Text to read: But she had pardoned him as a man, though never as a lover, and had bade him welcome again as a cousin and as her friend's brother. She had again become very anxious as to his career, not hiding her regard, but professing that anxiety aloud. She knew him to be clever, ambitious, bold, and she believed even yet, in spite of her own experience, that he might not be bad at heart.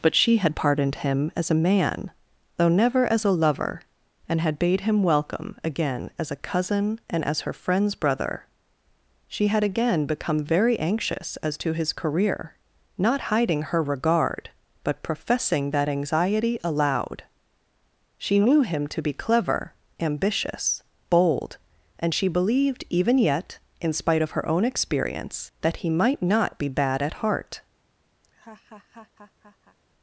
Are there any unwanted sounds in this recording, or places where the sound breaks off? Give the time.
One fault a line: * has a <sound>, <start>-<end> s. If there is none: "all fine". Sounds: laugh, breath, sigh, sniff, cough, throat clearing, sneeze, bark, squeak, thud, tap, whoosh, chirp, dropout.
* has a laugh, 28.2-29.8 s